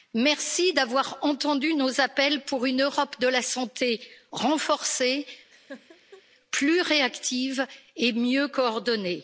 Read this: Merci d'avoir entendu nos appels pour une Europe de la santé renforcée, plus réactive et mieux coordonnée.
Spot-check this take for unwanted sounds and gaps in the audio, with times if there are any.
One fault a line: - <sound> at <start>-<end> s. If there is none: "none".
- laugh at 5.5-6.2 s